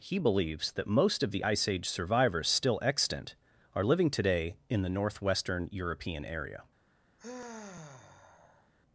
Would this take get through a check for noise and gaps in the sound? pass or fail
fail